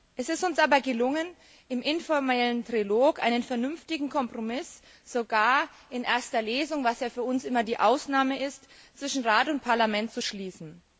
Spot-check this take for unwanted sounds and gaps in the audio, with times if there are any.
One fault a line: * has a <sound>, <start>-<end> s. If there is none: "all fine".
all fine